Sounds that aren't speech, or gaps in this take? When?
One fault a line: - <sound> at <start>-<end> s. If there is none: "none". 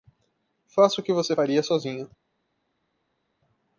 none